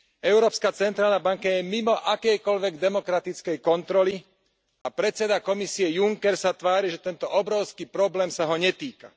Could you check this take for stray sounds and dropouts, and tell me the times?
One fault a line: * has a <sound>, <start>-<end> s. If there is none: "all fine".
* has a dropout, 4.8-4.8 s